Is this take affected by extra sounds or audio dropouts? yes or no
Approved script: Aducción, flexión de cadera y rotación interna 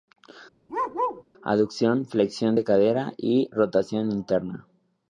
yes